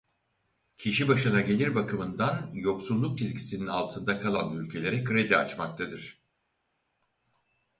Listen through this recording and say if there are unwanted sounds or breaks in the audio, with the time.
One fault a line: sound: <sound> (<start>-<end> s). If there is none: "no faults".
no faults